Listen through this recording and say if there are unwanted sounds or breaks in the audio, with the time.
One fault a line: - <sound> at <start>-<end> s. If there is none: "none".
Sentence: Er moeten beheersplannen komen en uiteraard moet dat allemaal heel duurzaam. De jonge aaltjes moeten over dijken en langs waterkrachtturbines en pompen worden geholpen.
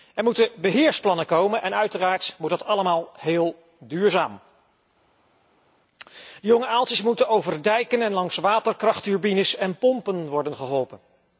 none